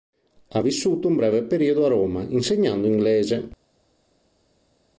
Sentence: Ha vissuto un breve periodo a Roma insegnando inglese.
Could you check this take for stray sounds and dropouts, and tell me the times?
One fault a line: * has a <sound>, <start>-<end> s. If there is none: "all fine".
all fine